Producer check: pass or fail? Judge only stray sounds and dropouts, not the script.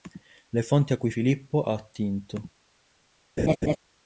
fail